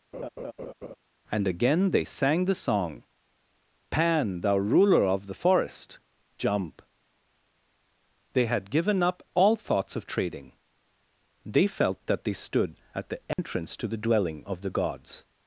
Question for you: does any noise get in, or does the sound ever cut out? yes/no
yes